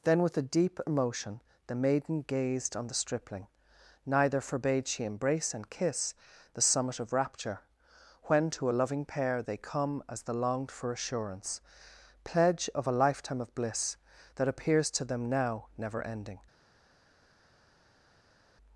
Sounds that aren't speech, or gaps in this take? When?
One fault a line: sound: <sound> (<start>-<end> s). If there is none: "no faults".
no faults